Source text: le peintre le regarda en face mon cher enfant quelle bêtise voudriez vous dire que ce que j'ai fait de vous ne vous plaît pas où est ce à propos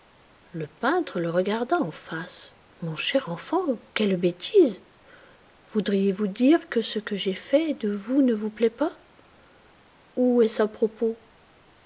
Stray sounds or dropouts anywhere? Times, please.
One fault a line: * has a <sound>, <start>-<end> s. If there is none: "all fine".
all fine